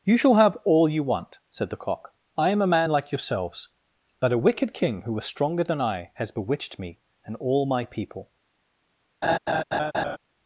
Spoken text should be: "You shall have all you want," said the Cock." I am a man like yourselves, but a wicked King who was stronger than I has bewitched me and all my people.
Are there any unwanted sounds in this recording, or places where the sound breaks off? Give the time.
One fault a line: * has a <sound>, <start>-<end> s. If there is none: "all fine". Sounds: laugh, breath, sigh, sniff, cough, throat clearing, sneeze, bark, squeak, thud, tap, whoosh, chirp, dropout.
* has a laugh, 9.2-10.2 s